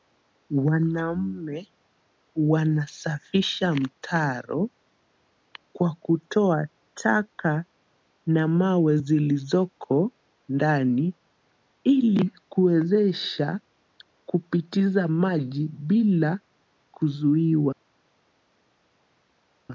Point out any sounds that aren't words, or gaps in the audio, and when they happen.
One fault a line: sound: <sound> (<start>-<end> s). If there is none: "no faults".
no faults